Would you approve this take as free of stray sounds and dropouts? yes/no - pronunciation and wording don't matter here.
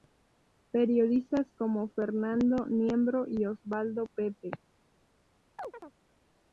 no